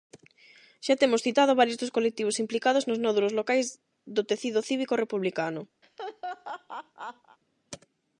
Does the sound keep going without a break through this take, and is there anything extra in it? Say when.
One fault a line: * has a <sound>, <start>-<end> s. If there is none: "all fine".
* has a laugh, 5.8-7.4 s